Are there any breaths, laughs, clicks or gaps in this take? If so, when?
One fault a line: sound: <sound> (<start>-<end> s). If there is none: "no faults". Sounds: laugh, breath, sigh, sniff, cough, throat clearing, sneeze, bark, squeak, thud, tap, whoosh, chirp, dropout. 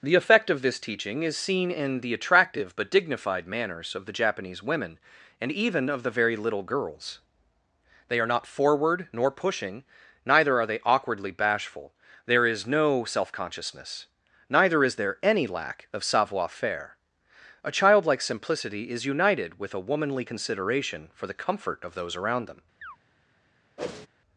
sound: chirp (22.8-23.0 s)
sound: whoosh (23.8-24.1 s)